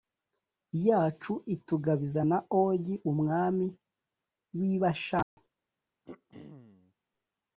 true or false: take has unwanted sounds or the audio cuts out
true